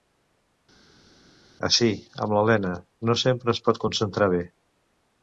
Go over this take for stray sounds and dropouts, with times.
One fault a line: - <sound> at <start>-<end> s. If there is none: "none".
none